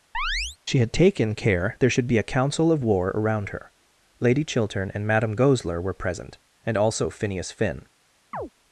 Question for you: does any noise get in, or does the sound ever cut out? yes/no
yes